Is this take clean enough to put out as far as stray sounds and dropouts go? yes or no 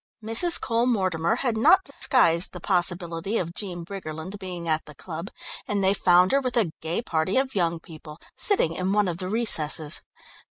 no